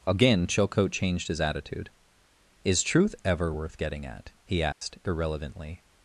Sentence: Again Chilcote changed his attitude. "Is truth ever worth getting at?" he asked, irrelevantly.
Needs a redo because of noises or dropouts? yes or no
yes